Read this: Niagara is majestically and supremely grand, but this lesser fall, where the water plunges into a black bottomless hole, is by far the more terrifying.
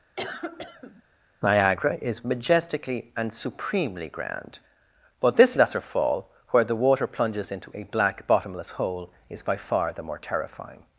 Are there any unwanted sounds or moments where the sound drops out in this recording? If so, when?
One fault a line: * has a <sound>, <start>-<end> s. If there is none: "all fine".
* has a cough, 0.2-1.0 s